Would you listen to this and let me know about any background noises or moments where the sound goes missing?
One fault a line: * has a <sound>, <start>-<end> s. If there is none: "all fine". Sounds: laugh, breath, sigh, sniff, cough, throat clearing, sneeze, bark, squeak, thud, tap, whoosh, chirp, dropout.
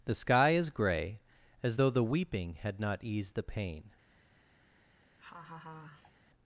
* has a laugh, 5.2-6.1 s